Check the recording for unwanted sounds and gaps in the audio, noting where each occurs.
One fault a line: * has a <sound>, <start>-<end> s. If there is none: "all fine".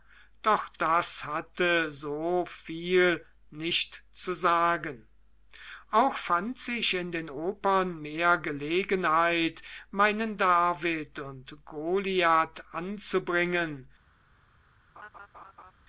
* has a laugh, 15.0-15.7 s